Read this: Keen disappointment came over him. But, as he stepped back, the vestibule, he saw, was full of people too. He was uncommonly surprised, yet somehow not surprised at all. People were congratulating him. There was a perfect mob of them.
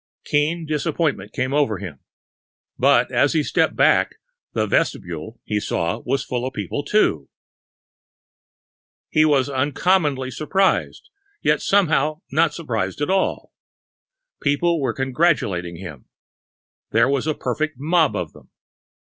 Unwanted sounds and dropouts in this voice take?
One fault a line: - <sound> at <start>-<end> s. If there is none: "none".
none